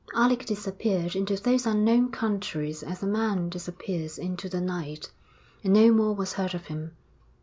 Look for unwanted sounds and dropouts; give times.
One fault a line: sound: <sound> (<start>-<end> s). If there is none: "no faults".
no faults